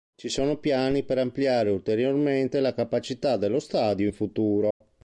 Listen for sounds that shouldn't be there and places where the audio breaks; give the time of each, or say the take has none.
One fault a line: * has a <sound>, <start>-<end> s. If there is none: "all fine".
* has a dropout, 4.7-4.8 s